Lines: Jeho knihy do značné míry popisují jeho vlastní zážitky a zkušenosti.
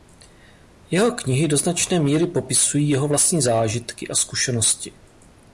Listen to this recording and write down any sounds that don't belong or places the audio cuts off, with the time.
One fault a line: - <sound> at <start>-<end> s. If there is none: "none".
none